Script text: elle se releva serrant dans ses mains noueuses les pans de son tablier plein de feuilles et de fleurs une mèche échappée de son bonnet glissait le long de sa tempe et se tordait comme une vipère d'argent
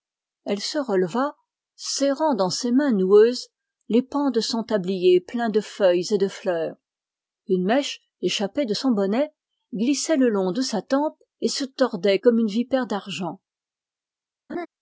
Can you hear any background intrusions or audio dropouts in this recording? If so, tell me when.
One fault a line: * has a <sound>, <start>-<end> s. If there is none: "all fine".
* has a laugh, 14.5-14.7 s